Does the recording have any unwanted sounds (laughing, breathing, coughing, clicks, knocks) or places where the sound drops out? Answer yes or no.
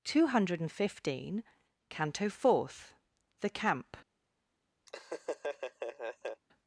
yes